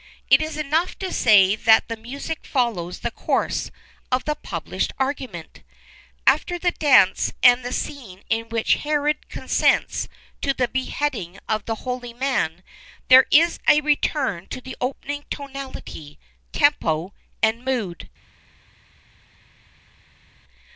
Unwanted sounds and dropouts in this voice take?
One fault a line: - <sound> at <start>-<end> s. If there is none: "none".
none